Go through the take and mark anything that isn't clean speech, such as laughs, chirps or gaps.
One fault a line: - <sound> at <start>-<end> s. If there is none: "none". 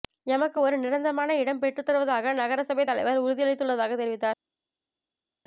none